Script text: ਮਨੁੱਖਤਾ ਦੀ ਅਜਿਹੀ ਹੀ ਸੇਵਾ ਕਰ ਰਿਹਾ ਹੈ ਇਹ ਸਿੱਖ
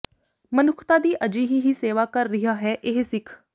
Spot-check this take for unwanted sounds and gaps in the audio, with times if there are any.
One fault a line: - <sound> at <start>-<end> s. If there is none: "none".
none